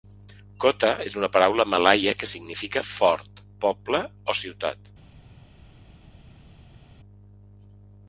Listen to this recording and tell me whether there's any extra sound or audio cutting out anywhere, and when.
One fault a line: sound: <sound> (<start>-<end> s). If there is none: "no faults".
no faults